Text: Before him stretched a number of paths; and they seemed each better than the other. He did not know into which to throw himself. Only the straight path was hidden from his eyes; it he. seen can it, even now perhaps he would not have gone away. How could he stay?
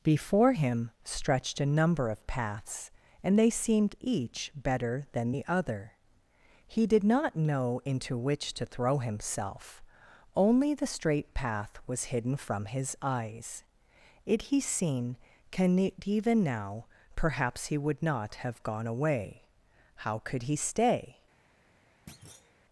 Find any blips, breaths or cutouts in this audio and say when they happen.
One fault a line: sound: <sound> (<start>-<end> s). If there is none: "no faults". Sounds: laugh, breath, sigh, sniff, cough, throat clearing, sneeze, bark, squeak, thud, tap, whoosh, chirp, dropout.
sound: thud (22.1-22.5 s)